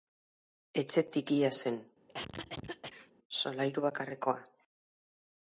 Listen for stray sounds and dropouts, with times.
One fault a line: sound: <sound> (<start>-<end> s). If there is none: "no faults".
sound: cough (2.1-3.1 s)